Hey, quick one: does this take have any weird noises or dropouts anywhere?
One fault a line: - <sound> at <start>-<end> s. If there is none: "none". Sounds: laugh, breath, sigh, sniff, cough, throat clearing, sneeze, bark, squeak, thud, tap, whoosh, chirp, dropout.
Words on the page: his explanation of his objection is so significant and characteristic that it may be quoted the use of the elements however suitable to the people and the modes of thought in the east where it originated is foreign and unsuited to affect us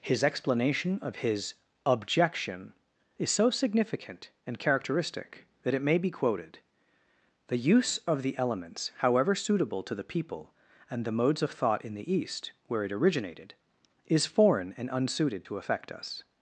none